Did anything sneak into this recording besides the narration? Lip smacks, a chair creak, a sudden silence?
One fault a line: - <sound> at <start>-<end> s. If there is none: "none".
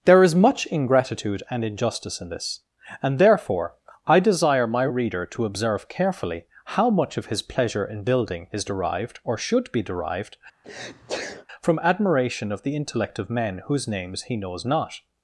- sneeze at 10.6-11.5 s